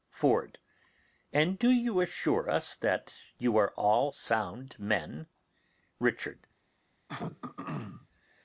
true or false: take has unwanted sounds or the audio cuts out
true